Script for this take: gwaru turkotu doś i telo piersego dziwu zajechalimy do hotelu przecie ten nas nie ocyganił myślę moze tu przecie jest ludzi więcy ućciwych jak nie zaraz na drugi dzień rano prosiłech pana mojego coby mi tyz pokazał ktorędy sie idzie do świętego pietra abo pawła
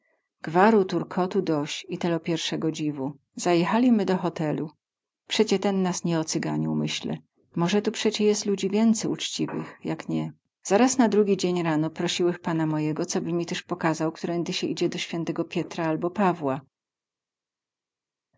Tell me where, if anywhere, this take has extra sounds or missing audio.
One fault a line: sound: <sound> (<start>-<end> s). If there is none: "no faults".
no faults